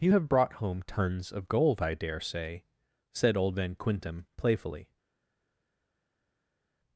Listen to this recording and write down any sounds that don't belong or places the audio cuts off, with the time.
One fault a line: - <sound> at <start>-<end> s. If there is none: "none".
none